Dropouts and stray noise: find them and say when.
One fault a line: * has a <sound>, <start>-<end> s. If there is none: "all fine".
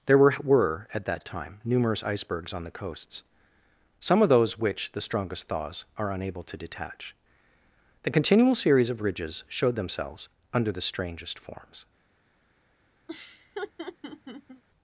* has a laugh, 13.1-14.6 s